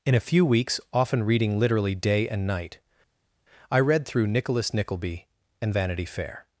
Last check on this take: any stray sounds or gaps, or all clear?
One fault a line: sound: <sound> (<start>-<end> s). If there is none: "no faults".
no faults